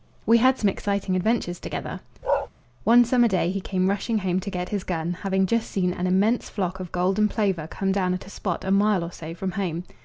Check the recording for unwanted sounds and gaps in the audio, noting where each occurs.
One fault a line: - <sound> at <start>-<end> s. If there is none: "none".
- bark at 2.2-2.5 s